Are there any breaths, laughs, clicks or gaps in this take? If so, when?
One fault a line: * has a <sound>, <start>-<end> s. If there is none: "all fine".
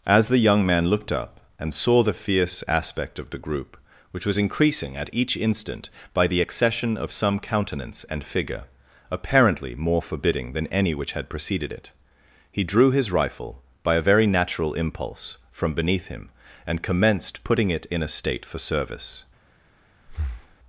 * has a breath, 20.1-20.6 s